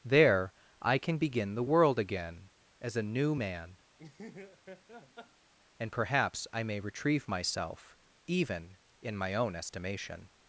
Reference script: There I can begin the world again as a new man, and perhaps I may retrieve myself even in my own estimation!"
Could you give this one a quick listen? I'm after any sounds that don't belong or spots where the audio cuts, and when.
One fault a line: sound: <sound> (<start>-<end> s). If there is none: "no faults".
sound: laugh (4.0-5.5 s)